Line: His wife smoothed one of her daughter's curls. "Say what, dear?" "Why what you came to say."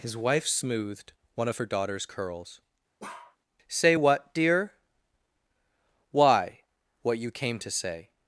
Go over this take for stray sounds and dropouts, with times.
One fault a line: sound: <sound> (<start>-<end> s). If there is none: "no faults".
sound: bark (3.0-3.4 s)